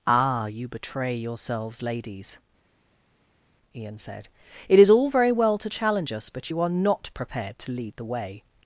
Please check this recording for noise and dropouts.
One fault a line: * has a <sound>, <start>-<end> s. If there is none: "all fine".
all fine